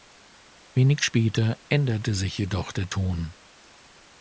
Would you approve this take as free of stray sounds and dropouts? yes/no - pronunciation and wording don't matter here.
yes